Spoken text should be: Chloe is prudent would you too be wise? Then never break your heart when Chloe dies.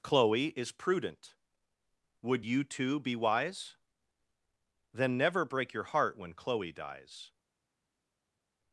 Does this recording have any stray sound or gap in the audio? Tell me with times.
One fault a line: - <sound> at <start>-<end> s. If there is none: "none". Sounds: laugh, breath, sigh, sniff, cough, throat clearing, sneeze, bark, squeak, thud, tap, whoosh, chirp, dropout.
none